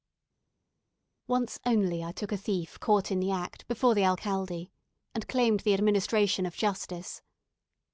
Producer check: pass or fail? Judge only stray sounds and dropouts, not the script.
pass